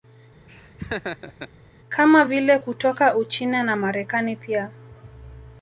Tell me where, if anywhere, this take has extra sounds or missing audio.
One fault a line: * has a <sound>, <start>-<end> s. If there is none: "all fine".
* has a laugh, 0.5-1.5 s